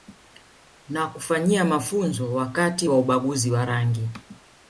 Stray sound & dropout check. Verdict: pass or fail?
pass